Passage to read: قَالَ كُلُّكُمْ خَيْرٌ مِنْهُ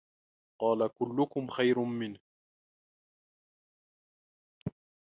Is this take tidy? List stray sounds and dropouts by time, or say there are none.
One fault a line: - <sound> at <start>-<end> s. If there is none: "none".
none